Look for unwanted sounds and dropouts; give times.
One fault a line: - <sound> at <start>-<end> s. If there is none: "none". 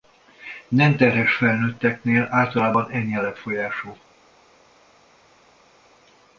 none